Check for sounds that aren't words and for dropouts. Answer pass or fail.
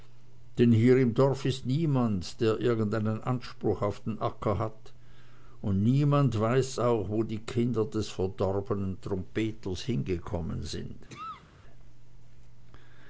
fail